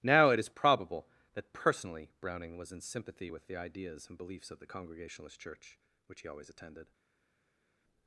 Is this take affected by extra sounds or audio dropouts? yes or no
no